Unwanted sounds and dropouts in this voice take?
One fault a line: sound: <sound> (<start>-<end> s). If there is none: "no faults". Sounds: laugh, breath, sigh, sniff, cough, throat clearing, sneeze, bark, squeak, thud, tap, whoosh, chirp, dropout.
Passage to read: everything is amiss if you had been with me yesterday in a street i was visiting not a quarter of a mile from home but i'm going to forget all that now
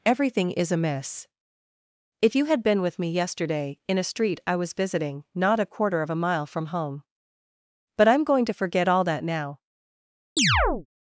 sound: chirp (10.4-10.9 s)